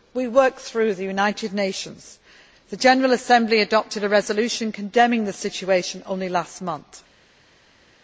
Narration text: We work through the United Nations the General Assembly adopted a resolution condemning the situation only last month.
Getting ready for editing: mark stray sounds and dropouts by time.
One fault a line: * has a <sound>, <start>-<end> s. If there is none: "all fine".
all fine